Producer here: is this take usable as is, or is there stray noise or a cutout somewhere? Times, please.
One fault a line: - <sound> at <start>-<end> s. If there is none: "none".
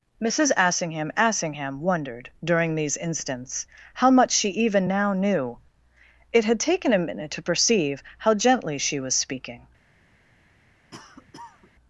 - cough at 10.9-11.7 s